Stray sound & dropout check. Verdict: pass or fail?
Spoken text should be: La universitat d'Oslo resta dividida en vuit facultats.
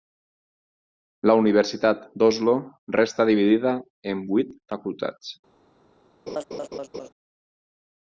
fail